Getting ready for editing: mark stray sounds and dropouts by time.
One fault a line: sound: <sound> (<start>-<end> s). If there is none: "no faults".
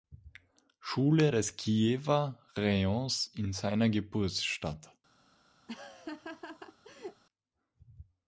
sound: laugh (5.7-7.2 s)